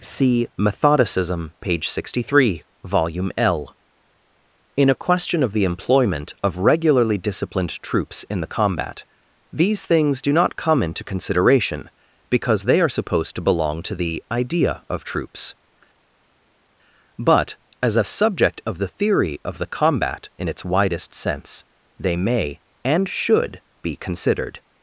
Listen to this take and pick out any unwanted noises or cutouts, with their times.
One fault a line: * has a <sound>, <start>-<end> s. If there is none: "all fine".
all fine